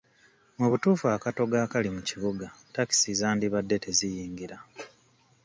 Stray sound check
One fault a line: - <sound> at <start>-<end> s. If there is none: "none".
none